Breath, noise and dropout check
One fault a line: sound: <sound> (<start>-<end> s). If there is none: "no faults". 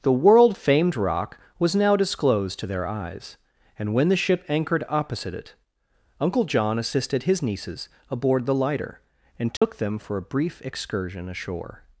sound: dropout (9.6-9.6 s)